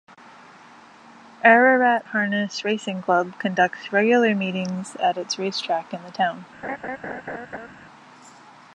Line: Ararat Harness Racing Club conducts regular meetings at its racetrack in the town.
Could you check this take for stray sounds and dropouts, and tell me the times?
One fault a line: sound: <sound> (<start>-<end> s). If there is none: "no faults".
sound: laugh (6.6-7.7 s)